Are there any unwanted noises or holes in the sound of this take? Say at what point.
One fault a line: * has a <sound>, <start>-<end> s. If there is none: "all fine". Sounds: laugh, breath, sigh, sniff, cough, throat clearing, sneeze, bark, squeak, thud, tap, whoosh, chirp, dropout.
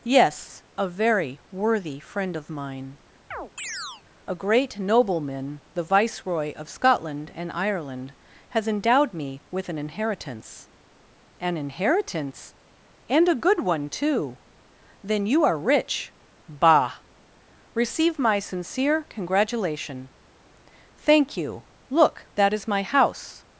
* has a chirp, 3.3-4.0 s